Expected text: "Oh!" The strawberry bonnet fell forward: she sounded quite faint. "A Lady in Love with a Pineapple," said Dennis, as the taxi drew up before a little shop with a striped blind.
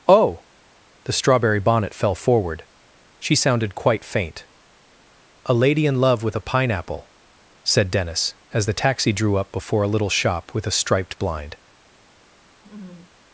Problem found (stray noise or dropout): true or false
true